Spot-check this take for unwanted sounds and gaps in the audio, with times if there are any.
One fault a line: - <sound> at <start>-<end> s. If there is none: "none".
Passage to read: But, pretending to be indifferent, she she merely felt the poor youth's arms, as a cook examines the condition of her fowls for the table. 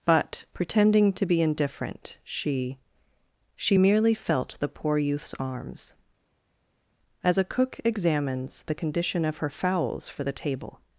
none